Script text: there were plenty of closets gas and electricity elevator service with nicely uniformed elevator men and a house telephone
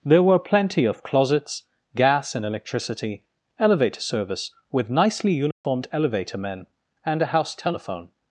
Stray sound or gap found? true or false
true